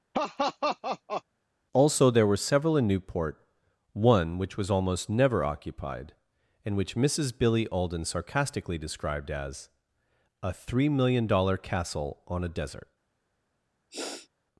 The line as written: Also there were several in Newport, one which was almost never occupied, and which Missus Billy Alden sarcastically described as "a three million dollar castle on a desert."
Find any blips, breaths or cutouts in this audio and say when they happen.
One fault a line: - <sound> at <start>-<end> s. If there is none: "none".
- laugh at 0.1-1.2 s
- sniff at 13.9-14.3 s